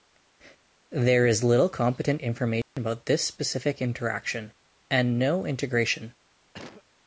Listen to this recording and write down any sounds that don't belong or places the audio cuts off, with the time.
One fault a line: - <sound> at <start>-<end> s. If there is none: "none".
- dropout at 2.6-2.8 s
- cough at 6.5-6.8 s